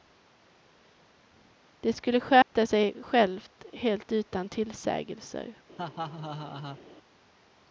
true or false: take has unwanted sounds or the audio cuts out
true